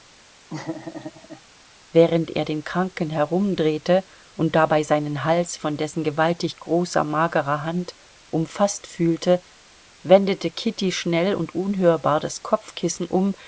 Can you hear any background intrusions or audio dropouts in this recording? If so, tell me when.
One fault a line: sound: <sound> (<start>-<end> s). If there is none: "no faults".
sound: laugh (0.5-1.4 s)